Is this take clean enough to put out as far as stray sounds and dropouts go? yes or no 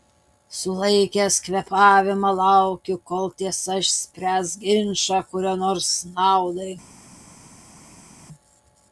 yes